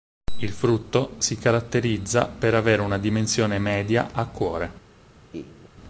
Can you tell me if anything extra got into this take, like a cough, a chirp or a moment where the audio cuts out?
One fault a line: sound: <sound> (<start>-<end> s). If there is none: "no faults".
sound: laugh (5.3-5.7 s)